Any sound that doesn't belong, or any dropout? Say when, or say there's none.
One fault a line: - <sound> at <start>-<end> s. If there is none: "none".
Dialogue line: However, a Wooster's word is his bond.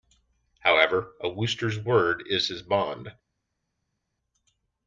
none